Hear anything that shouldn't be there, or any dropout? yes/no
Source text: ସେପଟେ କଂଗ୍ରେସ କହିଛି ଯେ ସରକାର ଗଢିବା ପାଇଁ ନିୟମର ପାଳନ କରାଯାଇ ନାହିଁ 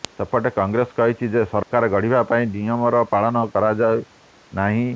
yes